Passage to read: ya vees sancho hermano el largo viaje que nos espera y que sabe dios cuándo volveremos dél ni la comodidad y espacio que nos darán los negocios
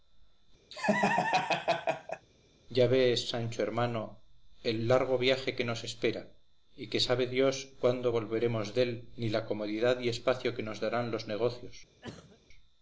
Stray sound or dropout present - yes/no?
yes